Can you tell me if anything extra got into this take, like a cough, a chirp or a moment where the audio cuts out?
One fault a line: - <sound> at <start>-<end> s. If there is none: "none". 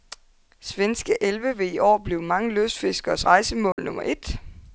- dropout at 3.7-3.8 s